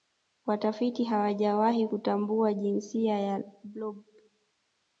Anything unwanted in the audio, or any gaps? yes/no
no